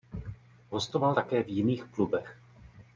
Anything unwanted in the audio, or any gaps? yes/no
no